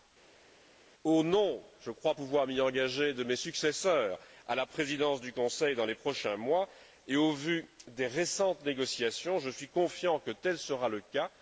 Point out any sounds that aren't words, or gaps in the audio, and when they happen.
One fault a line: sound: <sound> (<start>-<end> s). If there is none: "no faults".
no faults